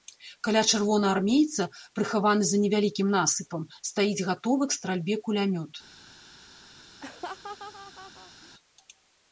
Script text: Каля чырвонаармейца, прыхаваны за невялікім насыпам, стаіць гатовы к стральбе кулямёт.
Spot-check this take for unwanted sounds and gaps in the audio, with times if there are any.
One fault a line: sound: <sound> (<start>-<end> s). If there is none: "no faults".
sound: laugh (7.0-8.5 s)